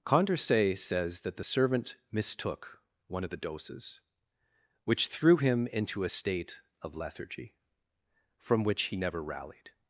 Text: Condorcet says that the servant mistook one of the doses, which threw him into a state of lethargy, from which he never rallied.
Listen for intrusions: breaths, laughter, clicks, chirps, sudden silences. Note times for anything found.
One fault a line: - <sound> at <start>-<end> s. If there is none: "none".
none